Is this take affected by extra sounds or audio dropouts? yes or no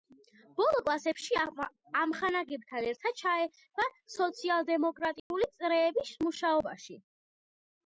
yes